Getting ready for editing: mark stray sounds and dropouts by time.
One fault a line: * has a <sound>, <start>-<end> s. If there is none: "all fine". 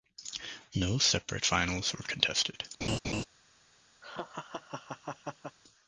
* has a laugh, 2.8-3.2 s
* has a laugh, 4.0-5.6 s